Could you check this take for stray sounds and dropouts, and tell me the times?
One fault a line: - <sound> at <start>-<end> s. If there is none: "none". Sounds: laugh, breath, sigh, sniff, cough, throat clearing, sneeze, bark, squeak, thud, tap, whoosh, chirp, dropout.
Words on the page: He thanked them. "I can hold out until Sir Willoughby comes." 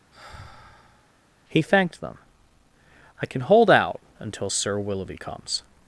- sigh at 0.1-1.1 s